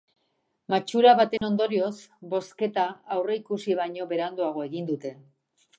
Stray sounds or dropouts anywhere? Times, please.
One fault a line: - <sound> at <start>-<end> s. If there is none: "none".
- dropout at 1.4-1.4 s